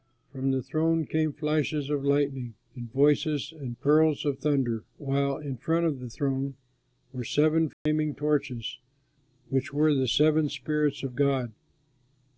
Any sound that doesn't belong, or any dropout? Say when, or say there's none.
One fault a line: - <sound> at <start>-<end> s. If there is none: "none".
- dropout at 7.7-7.9 s